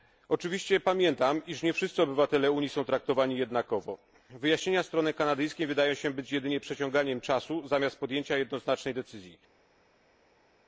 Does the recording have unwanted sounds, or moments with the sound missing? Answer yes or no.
no